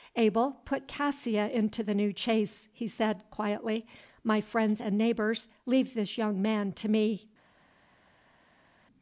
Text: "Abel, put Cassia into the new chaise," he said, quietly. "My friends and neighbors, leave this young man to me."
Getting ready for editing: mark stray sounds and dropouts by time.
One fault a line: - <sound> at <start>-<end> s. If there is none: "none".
none